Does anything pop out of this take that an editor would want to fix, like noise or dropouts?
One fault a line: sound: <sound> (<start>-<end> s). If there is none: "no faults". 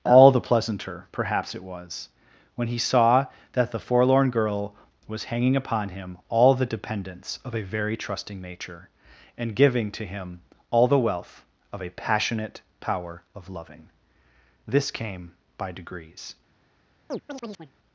sound: chirp (17.1-17.7 s)